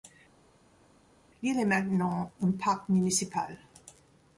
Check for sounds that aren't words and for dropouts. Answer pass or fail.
pass